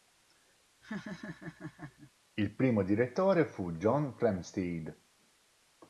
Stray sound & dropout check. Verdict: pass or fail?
fail